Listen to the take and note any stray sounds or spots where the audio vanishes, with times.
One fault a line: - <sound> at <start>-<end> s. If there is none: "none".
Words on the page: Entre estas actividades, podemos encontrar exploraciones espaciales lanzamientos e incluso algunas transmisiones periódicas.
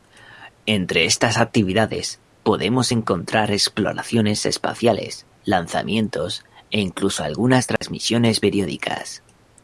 - dropout at 7.8-7.8 s